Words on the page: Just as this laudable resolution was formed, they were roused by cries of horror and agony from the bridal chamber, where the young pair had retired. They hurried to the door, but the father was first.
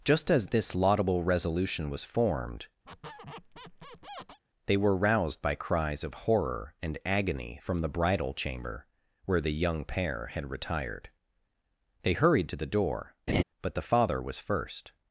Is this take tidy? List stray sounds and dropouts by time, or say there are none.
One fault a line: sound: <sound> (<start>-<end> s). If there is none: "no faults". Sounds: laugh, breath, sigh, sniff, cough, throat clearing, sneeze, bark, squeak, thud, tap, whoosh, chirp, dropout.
sound: squeak (2.8-4.4 s)
sound: laugh (13.3-13.4 s)